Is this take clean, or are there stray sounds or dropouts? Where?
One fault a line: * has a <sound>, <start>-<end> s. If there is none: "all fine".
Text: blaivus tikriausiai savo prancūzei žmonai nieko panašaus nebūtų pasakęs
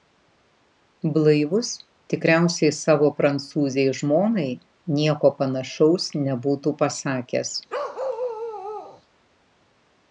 * has a bark, 7.7-9.0 s